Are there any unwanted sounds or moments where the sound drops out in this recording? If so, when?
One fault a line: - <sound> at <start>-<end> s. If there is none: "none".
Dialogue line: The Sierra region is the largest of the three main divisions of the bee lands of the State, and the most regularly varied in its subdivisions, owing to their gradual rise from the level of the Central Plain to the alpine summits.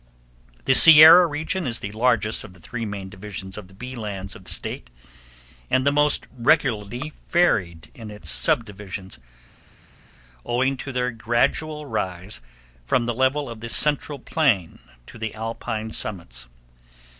none